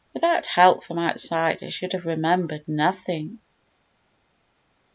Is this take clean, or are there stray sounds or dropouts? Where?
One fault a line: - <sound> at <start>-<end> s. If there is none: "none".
none